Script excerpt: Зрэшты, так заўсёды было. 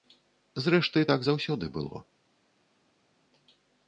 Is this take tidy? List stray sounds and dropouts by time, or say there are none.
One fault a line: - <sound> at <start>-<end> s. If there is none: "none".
none